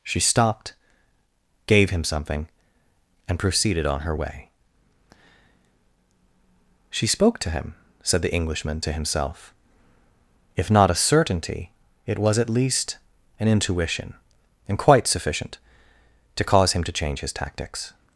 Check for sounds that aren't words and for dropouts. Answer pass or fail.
pass